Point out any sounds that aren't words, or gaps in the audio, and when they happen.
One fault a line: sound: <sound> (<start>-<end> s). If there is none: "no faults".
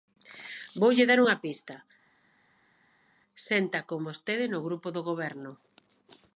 no faults